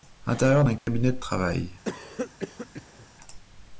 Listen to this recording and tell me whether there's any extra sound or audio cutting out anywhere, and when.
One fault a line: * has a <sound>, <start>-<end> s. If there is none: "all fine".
* has a dropout, 0.8-0.9 s
* has a cough, 1.9-3.1 s